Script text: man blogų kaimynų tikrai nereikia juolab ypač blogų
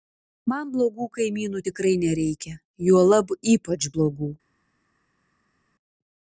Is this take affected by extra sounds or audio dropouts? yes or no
no